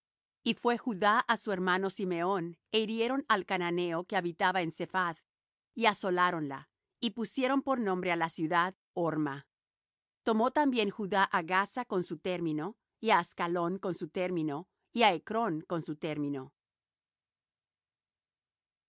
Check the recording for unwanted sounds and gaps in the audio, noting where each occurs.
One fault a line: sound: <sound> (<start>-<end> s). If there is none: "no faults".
no faults